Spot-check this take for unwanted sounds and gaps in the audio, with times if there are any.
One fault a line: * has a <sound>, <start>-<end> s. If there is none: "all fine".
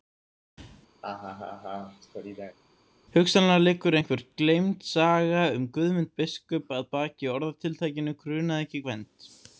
* has a laugh, 1.0-2.6 s